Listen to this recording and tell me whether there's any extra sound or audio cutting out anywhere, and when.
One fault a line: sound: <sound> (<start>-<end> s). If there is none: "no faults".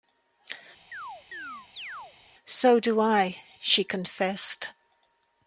sound: chirp (0.9-2.2 s)